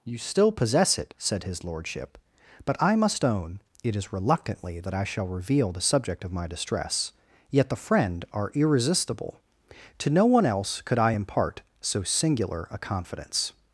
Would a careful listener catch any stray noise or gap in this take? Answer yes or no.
no